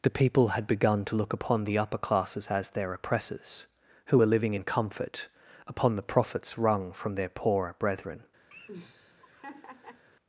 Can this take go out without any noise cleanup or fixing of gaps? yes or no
no